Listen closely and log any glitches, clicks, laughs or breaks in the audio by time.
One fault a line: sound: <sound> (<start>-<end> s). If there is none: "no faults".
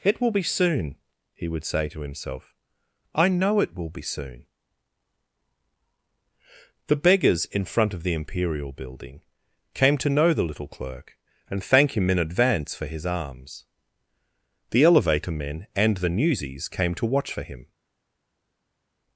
no faults